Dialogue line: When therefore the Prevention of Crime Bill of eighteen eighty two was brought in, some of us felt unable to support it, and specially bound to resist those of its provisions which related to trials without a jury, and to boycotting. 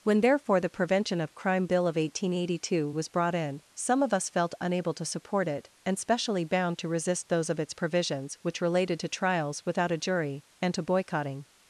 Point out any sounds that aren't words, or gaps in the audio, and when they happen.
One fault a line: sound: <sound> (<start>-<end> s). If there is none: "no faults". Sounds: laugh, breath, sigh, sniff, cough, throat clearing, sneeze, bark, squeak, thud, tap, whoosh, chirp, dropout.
no faults